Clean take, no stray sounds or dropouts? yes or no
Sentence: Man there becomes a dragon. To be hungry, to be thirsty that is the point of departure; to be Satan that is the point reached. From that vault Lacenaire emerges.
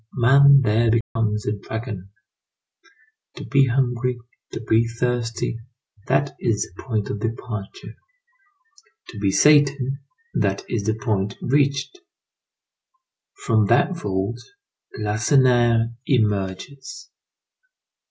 no